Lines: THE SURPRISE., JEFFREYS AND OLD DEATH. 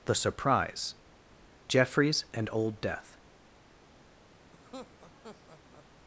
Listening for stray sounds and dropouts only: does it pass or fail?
fail